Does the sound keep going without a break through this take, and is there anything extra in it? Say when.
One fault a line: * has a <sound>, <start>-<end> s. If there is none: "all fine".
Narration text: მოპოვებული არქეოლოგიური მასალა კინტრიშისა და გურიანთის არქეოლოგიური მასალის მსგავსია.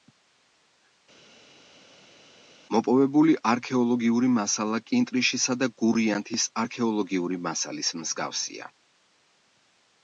all fine